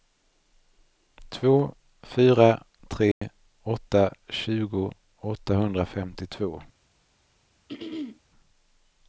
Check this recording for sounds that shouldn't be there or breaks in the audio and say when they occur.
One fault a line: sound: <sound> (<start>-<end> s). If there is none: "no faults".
sound: dropout (3.1-3.2 s)
sound: throat clearing (7.7-8.2 s)